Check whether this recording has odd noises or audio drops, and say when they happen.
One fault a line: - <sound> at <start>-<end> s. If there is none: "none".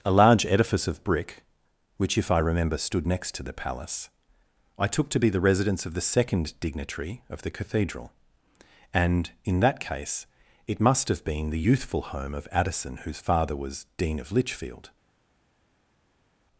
none